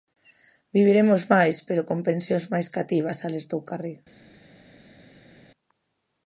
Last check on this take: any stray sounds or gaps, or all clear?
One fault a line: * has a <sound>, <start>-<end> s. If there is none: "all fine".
all fine